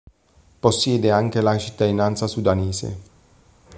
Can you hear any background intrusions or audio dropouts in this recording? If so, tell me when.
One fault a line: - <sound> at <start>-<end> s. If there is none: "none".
none